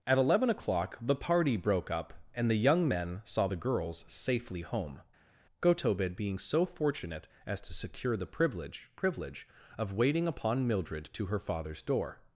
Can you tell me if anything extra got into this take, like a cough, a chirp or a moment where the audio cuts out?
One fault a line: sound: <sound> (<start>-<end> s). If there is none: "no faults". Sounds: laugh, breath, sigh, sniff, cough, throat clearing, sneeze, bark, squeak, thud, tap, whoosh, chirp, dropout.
no faults